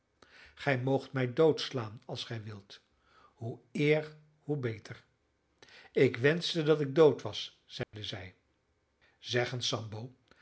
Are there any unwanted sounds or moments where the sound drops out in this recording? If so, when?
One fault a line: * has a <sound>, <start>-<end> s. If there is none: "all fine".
* has a dropout, 7.8-7.9 s